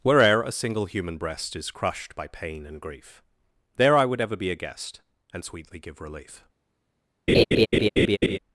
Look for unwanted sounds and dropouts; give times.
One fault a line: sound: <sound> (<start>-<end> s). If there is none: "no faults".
sound: laugh (7.3-8.4 s)